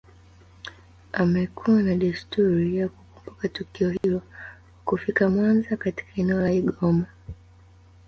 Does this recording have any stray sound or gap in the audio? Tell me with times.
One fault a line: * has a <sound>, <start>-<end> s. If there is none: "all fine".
* has a dropout, 4.0-4.0 s